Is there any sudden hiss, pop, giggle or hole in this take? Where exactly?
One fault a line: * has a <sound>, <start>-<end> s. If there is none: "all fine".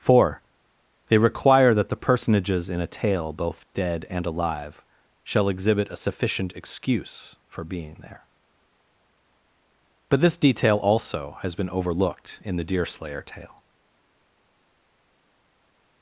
all fine